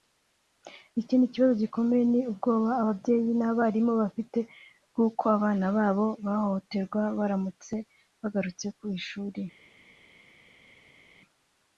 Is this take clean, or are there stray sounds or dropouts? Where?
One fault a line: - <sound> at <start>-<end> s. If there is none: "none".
none